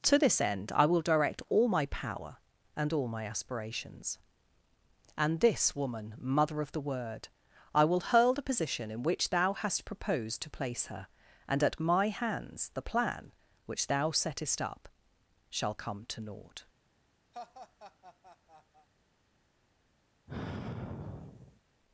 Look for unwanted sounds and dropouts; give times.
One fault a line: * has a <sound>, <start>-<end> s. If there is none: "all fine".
* has a laugh, 17.3-18.9 s
* has a sigh, 20.3-21.6 s